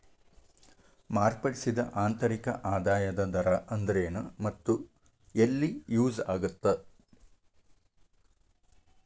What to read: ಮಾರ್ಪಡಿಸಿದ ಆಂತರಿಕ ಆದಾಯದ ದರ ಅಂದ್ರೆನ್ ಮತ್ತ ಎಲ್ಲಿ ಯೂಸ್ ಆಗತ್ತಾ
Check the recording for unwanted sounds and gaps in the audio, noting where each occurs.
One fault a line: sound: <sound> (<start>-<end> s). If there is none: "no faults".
no faults